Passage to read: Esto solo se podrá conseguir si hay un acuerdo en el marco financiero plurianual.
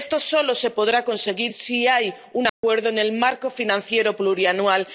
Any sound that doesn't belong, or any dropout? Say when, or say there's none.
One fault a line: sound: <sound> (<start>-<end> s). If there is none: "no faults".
sound: dropout (2.5-2.6 s)